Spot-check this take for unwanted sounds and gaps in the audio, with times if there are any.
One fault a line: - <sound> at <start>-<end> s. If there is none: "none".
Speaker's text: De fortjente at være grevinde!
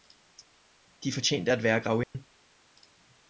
- dropout at 2.0-2.1 s